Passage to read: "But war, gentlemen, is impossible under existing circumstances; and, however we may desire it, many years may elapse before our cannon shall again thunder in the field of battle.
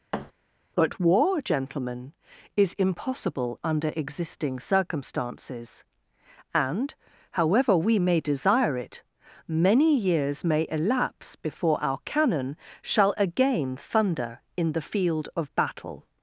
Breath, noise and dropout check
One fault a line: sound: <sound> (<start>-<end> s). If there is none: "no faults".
sound: thud (0.1-0.3 s)